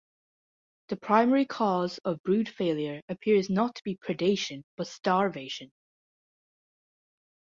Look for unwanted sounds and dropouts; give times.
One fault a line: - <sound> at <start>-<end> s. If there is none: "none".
none